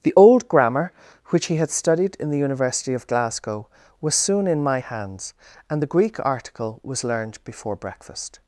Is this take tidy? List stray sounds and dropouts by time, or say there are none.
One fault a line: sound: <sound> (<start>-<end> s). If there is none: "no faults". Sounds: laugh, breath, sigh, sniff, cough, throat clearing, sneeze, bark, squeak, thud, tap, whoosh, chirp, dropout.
no faults